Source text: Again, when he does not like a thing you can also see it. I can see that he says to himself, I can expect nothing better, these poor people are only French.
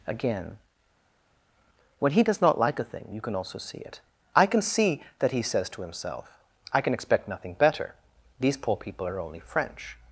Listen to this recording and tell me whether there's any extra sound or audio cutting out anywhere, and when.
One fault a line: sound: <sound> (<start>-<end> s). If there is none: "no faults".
no faults